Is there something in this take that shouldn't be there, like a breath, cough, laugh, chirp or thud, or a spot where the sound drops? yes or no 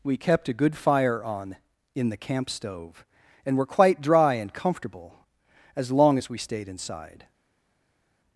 no